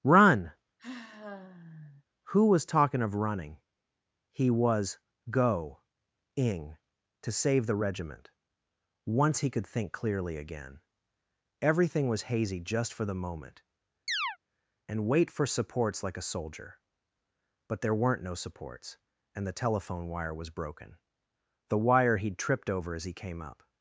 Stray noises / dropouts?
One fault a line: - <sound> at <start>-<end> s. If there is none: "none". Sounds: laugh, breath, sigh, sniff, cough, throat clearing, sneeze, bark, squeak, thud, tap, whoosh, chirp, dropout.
- sigh at 0.8-2.0 s
- chirp at 14.1-14.4 s